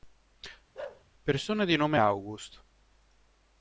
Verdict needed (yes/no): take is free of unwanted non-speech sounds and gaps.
no